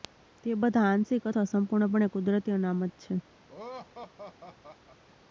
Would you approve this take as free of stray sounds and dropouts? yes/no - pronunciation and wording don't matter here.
no